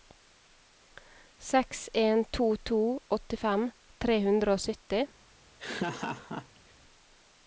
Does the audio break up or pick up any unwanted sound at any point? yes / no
yes